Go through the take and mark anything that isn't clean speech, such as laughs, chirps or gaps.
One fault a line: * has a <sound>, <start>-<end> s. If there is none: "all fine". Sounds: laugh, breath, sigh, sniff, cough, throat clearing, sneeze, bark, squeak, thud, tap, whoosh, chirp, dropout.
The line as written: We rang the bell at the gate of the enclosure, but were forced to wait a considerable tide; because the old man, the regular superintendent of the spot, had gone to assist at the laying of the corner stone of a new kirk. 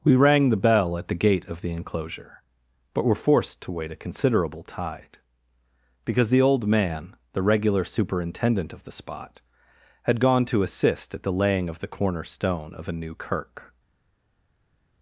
all fine